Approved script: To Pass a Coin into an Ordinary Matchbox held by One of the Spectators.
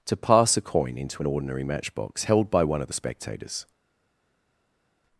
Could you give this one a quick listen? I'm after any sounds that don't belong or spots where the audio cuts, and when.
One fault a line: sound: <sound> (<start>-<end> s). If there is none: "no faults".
no faults